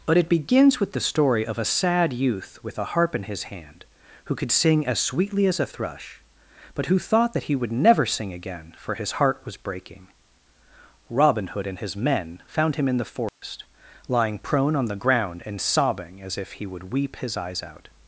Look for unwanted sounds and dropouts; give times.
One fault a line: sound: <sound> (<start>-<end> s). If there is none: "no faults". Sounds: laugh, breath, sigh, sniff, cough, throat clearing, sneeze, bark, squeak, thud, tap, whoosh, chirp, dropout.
sound: dropout (13.3-13.4 s)